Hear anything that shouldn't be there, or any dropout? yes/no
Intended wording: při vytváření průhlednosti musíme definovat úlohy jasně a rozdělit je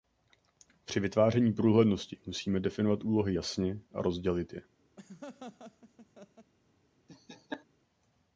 yes